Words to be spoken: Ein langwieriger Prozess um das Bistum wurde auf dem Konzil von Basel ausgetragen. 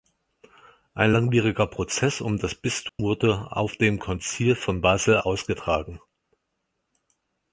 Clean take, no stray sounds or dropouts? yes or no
no